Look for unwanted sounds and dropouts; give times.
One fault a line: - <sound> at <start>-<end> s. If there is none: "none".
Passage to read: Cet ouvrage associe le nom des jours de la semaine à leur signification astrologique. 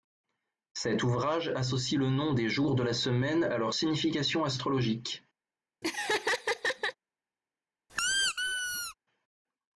- laugh at 5.8-6.9 s
- squeak at 7.9-8.9 s